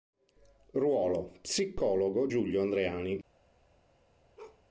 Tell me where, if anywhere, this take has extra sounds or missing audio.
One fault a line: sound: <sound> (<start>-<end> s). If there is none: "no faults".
sound: bark (4.4-4.6 s)